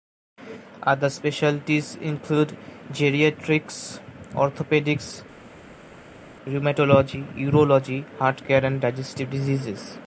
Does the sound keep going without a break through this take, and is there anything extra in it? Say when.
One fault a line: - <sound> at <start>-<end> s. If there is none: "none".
none